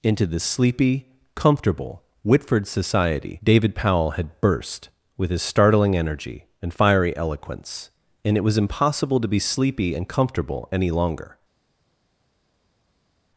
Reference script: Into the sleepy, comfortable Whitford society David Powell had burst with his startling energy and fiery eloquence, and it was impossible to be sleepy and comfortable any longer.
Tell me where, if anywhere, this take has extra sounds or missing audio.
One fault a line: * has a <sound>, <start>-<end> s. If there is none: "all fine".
all fine